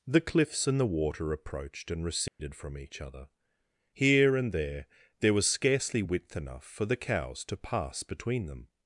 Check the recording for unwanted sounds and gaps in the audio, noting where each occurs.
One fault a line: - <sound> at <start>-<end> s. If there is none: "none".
- dropout at 2.3-2.4 s